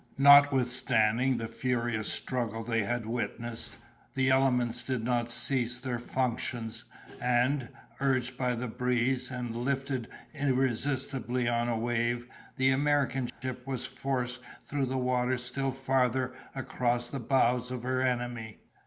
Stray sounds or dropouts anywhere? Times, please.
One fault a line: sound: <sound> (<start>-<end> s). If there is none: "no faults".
sound: dropout (13.3-13.4 s)